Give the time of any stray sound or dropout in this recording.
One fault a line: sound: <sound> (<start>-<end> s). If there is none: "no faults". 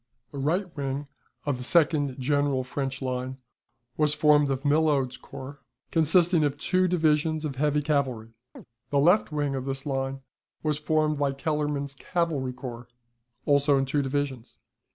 sound: chirp (8.6-8.7 s)